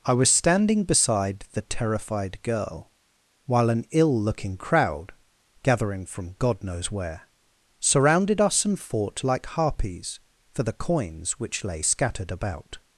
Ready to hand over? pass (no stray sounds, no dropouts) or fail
pass